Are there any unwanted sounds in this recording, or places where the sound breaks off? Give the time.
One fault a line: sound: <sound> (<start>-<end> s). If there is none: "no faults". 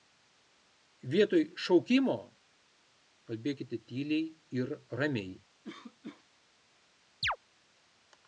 sound: cough (5.6-6.3 s)
sound: chirp (7.2-7.4 s)